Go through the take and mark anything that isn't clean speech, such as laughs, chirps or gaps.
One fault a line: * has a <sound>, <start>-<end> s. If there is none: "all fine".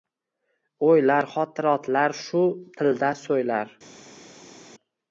all fine